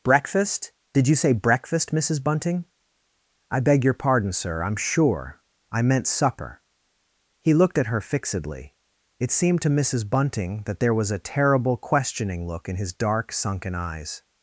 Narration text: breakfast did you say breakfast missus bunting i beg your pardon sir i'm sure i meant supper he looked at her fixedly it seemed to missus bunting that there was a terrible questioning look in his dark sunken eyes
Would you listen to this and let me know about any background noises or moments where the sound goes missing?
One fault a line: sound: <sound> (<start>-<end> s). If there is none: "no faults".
no faults